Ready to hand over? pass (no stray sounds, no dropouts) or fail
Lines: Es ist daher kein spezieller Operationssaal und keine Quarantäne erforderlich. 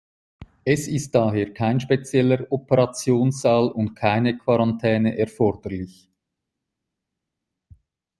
pass